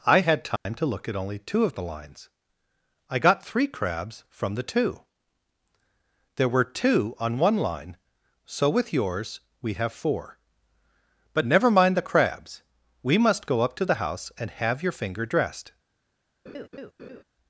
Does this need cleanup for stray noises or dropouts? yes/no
yes